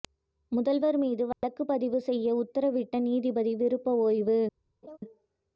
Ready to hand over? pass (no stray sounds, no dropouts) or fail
fail